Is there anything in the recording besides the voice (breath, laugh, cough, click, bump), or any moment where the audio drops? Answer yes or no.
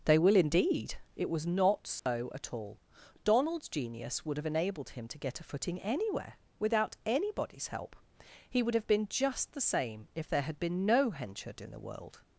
yes